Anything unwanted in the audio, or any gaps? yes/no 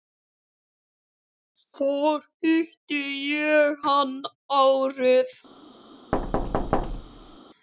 yes